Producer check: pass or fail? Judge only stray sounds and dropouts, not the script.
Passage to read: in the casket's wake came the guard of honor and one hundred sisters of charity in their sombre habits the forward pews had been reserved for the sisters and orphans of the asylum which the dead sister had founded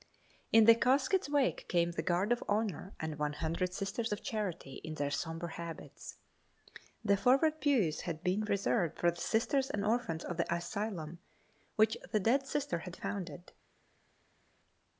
pass